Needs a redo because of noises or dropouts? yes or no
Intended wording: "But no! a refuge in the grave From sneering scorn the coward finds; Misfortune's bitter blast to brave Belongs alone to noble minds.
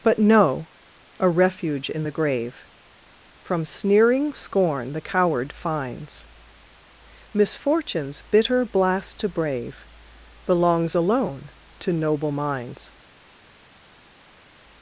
no